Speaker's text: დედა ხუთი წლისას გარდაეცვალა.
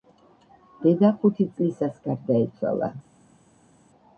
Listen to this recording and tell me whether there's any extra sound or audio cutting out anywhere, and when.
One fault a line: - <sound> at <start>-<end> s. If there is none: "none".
none